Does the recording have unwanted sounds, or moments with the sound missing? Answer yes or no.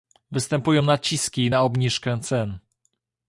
no